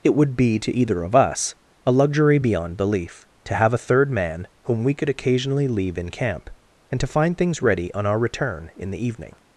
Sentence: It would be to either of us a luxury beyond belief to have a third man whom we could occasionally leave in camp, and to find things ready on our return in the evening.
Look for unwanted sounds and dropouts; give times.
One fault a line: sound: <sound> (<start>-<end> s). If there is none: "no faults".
no faults